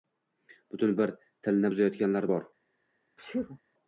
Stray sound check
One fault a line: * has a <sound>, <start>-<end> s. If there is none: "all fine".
* has a sneeze, 3.2-3.6 s